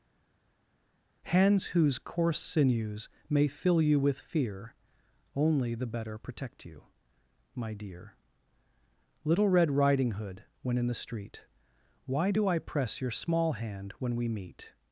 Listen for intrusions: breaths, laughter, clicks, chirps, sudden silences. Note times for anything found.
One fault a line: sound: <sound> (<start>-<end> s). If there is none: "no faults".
no faults